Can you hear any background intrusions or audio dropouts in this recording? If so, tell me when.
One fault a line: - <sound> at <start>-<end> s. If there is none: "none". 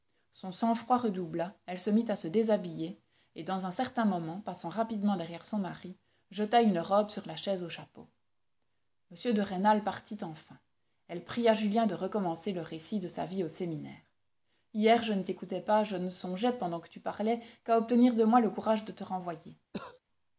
- cough at 19.7-20.0 s